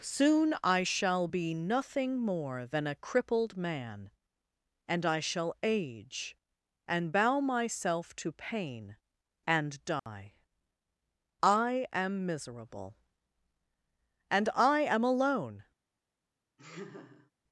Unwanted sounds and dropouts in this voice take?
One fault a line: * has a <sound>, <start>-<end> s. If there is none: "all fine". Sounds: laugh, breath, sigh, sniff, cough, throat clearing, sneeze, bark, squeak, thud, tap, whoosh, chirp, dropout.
* has a dropout, 10.0-10.1 s
* has a laugh, 16.6-17.3 s